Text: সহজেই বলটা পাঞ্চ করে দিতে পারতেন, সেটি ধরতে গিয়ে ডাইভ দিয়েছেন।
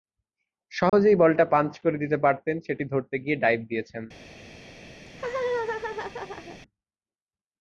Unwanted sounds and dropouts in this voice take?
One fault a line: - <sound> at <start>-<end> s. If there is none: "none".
- dropout at 0.9-0.9 s
- laugh at 5.1-6.6 s